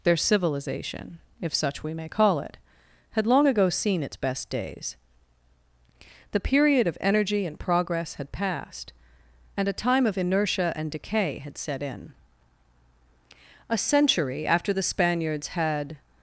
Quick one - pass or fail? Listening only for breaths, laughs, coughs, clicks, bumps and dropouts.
pass